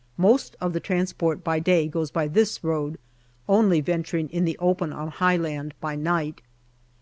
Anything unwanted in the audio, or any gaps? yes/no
no